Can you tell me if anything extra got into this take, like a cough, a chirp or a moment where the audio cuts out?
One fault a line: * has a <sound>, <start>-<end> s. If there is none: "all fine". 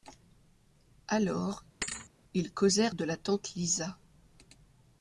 * has a thud, 1.8-2.1 s